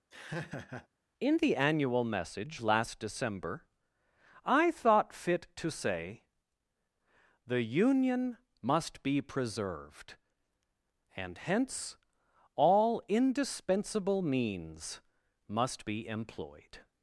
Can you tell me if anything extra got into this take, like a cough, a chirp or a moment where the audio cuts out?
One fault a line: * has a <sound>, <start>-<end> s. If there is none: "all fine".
* has a laugh, 0.1-0.9 s